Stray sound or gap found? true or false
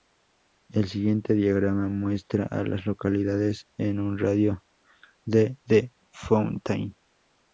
false